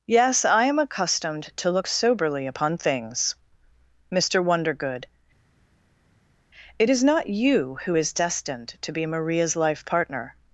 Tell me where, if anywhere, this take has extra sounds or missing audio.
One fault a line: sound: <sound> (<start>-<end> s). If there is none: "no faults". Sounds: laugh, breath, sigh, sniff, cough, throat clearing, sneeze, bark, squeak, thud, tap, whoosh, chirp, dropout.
no faults